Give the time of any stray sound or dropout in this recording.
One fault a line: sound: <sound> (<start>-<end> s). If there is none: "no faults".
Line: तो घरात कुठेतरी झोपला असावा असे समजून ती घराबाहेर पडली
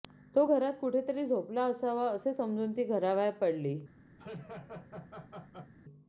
sound: laugh (4.2-5.7 s)